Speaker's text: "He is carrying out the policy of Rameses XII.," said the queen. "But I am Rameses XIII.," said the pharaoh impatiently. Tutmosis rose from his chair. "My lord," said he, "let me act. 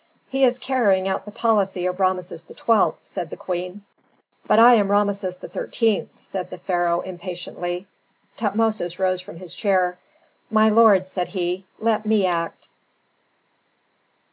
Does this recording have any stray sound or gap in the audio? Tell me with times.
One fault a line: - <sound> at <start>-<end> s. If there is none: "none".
none